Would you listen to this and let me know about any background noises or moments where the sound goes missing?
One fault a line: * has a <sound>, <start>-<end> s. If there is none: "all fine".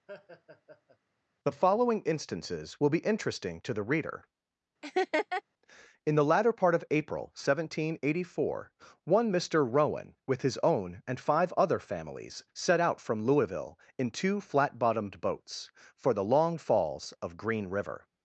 * has a laugh, 0.1-1.0 s
* has a laugh, 4.8-5.4 s